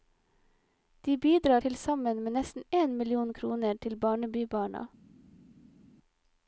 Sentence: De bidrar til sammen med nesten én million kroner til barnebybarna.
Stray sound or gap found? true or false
false